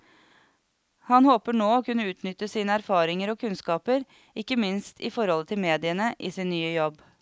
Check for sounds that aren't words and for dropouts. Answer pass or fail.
pass